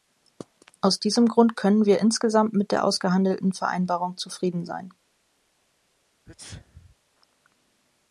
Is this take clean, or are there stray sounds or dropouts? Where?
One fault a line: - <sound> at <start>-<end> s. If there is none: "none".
- sneeze at 6.3-7.0 s